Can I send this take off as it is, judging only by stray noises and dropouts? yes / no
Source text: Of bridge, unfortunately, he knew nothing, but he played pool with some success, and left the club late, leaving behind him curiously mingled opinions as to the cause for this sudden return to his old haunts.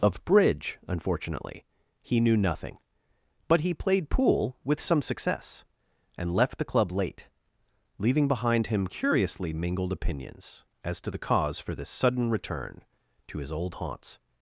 yes